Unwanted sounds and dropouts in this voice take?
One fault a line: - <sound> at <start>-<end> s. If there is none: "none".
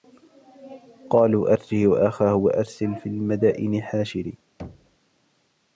- thud at 4.6-5.0 s